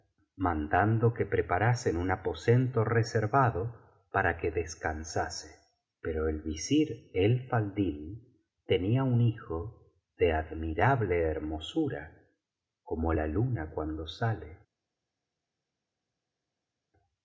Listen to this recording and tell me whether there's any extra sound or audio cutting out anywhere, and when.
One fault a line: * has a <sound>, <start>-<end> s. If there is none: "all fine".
all fine